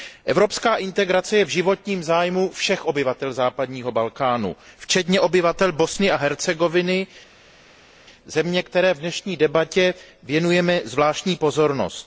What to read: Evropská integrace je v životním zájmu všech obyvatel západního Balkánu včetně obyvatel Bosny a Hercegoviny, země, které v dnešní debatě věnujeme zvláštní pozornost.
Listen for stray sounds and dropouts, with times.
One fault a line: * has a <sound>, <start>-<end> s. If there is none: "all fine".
all fine